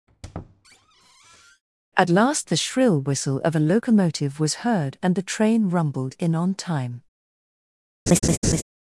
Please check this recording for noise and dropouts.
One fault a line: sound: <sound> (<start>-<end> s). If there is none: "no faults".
sound: squeak (0.1-1.6 s)
sound: laugh (8.1-8.6 s)